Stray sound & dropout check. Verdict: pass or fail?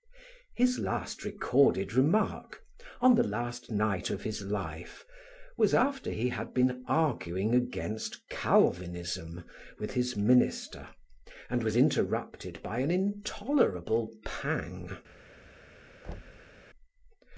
fail